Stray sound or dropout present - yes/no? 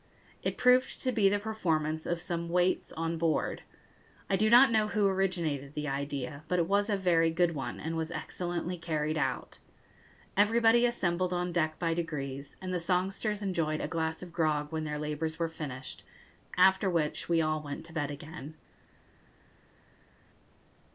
no